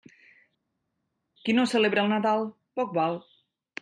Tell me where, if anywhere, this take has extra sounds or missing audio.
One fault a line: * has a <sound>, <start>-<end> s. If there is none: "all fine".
all fine